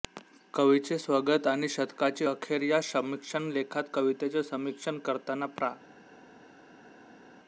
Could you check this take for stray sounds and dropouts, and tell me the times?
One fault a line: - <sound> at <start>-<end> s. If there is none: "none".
none